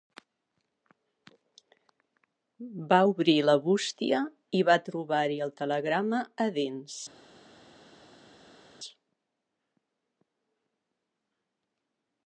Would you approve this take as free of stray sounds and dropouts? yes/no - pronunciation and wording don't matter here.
yes